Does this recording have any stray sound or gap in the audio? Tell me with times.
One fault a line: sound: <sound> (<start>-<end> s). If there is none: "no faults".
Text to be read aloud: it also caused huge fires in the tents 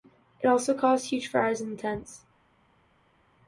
no faults